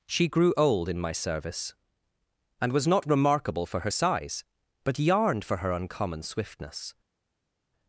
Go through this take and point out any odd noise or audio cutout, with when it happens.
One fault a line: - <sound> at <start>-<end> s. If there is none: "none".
none